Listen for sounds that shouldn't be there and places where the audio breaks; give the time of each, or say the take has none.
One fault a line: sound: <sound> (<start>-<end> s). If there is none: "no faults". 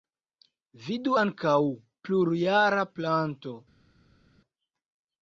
no faults